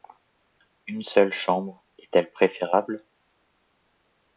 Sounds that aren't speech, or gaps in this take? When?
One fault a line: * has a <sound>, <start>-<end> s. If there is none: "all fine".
all fine